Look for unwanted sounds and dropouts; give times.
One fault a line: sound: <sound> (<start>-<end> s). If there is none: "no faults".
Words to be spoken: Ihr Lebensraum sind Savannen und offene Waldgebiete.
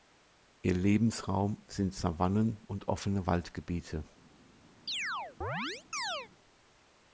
sound: chirp (4.9-6.3 s)